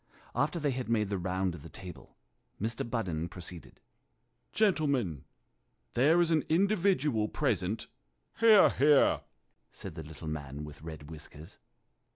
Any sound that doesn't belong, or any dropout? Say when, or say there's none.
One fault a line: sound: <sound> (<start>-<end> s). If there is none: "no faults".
no faults